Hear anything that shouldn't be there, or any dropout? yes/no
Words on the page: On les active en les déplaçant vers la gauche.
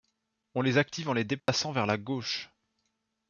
yes